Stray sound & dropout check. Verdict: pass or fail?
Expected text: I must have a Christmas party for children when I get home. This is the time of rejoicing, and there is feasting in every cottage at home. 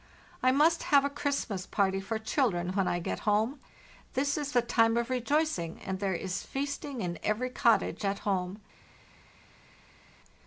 pass